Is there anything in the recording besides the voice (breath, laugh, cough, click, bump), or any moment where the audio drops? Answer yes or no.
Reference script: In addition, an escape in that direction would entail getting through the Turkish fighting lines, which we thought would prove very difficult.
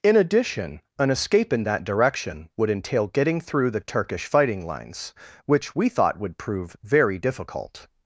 no